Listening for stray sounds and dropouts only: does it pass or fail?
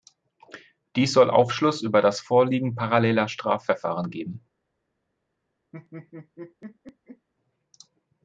fail